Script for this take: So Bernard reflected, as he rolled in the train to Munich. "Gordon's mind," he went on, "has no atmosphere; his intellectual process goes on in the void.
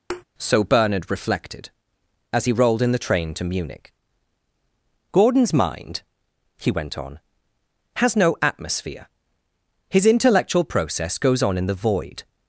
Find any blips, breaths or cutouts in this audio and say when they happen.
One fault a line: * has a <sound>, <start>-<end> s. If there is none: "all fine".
* has a thud, 0.1-0.2 s